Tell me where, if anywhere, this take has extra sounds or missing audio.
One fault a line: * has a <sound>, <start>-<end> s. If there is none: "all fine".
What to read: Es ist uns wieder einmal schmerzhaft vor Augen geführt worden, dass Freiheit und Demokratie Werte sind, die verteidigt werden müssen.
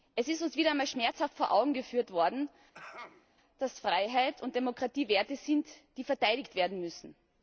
* has a throat clearing, 2.7-3.3 s